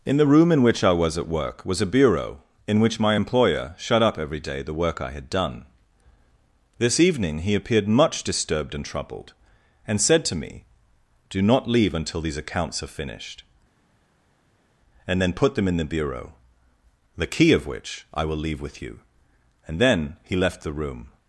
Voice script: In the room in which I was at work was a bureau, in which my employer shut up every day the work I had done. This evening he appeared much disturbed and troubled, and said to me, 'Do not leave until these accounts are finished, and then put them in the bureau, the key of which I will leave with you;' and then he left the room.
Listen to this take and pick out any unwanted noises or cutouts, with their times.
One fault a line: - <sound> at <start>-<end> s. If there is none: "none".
none